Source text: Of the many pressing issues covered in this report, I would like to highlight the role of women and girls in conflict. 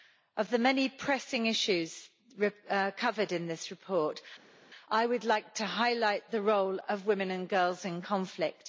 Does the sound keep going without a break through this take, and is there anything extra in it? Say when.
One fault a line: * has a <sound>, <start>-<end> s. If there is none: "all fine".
all fine